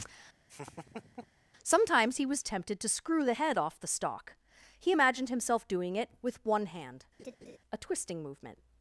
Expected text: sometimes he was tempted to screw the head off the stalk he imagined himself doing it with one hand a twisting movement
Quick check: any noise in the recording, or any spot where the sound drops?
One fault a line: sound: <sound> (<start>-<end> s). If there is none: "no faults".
sound: laugh (0.5-1.4 s)
sound: laugh (7.2-7.6 s)